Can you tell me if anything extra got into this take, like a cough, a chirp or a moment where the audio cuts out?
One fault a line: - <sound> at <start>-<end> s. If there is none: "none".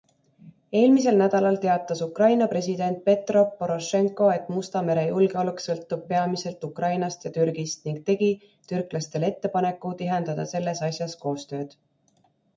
none